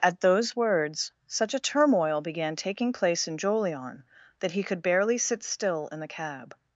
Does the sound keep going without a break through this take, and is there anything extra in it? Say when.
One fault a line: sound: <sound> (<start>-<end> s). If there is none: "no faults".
no faults